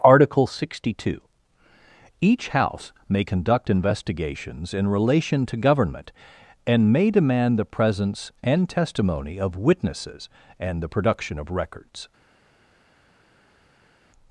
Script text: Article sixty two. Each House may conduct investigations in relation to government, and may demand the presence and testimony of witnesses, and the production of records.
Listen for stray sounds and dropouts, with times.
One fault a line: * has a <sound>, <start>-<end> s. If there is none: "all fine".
all fine